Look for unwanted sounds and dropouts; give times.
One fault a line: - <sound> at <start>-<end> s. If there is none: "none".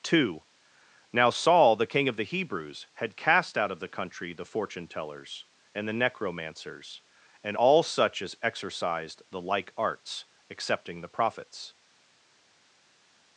none